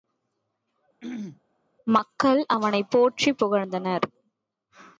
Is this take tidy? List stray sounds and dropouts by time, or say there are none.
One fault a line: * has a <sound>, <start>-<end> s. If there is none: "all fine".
* has a throat clearing, 1.0-1.4 s